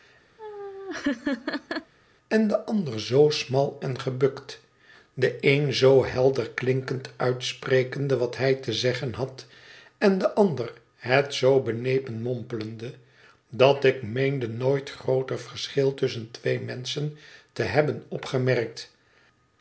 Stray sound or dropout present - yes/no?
yes